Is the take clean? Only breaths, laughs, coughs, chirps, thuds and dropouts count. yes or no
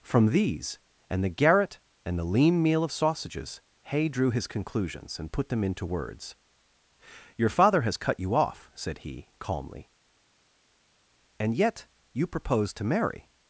yes